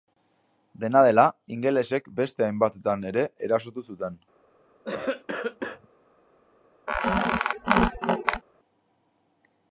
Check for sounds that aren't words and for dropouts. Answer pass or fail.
fail